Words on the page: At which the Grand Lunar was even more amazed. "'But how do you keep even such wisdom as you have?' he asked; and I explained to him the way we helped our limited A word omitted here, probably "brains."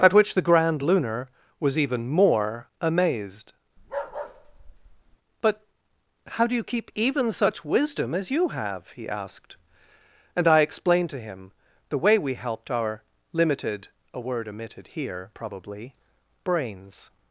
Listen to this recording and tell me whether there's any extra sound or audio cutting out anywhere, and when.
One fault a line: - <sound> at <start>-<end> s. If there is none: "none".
- bark at 3.8-5.2 s